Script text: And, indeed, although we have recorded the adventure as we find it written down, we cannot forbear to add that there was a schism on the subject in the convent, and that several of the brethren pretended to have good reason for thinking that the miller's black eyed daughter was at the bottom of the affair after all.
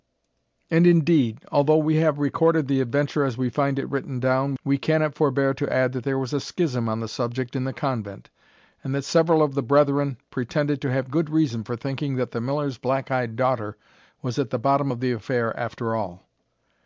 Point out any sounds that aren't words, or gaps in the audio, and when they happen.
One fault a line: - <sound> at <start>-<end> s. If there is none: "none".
none